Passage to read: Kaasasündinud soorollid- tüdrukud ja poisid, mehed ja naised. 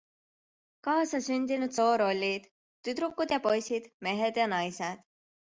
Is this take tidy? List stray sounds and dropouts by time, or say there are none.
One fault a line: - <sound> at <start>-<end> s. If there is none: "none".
none